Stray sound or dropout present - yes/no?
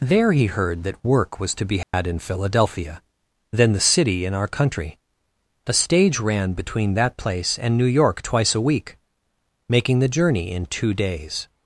yes